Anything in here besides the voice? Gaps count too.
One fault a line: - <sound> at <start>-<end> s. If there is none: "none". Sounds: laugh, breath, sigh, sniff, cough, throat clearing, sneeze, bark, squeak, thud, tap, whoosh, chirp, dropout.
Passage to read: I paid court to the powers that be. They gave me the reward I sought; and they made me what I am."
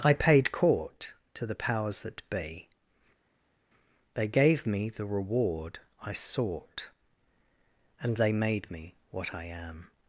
none